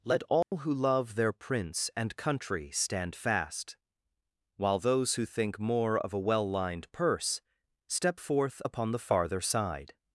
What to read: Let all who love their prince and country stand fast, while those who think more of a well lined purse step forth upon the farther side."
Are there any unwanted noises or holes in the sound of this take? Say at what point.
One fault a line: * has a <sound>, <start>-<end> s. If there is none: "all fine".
* has a dropout, 0.4-0.5 s